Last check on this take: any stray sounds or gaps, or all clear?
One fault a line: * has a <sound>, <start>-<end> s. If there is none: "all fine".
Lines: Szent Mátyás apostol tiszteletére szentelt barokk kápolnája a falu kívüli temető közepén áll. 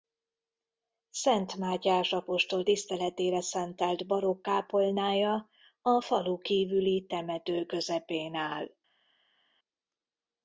all fine